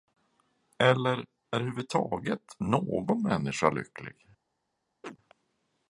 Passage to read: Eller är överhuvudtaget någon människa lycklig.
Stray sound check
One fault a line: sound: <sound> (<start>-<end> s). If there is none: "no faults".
sound: chirp (5.0-5.2 s)